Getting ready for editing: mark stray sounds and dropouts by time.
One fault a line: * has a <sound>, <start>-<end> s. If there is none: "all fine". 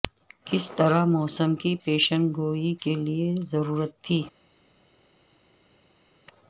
all fine